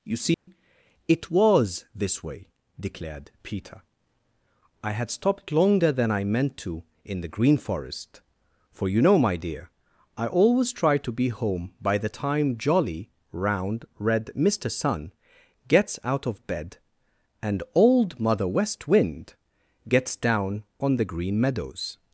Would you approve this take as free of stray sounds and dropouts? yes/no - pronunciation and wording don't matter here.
no